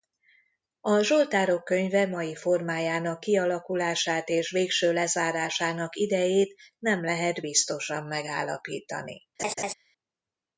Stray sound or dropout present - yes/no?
yes